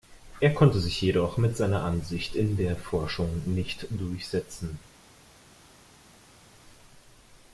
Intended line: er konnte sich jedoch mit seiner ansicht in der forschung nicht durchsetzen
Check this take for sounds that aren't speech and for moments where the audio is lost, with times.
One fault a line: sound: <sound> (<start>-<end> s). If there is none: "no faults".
no faults